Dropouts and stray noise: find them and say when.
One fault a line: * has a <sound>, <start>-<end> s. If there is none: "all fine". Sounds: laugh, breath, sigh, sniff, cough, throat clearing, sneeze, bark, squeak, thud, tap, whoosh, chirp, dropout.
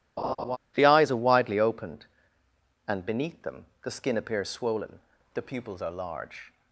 * has a laugh, 0.2-0.6 s